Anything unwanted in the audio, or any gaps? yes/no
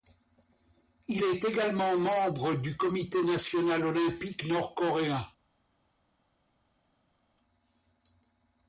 no